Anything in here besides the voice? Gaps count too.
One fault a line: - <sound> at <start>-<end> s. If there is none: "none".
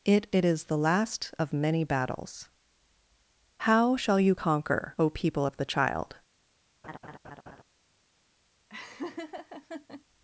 - laugh at 6.8-7.6 s
- laugh at 8.7-10.0 s